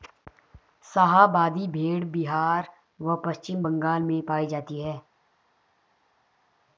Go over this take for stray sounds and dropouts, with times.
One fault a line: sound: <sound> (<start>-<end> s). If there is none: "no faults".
no faults